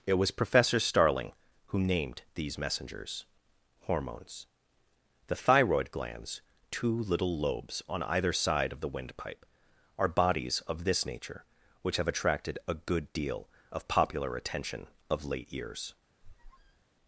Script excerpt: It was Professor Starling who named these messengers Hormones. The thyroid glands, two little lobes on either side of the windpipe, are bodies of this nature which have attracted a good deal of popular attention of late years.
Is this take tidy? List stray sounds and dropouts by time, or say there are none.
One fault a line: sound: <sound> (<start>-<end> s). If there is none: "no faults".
sound: squeak (16.2-16.8 s)